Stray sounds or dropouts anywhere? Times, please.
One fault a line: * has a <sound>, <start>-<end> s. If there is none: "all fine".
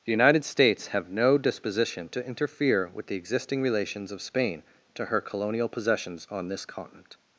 all fine